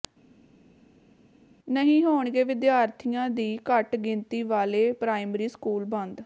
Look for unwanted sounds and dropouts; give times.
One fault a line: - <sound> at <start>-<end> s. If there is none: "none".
none